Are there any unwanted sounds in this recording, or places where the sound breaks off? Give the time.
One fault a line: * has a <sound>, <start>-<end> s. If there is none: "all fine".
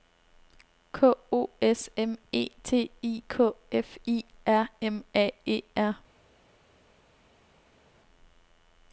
all fine